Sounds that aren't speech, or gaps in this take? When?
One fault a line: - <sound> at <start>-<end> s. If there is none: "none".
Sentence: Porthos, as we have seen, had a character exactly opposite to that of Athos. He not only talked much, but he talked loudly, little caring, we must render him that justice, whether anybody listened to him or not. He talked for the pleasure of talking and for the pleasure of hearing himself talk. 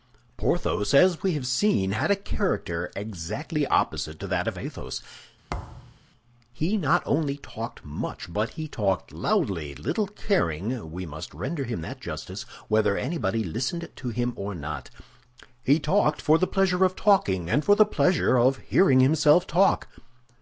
- thud at 5.5-6.0 s